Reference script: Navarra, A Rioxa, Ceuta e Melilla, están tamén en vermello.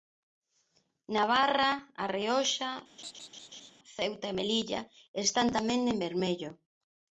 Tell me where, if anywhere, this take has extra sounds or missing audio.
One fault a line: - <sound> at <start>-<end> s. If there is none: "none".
- laugh at 3.0-3.7 s